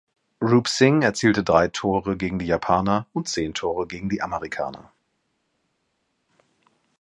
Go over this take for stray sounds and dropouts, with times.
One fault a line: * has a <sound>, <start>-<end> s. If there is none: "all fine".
all fine